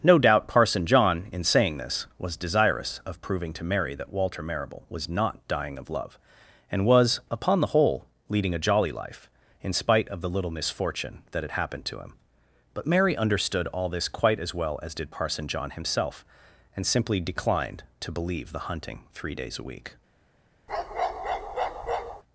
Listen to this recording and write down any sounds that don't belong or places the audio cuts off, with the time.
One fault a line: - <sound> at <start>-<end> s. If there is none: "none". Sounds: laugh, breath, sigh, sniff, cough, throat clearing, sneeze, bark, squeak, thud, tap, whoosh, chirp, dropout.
- bark at 20.7-22.2 s